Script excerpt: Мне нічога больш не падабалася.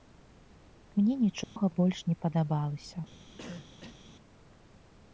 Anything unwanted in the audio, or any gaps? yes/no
yes